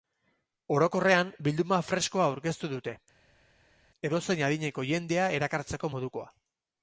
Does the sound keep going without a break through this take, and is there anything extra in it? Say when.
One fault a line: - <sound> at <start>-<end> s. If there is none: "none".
none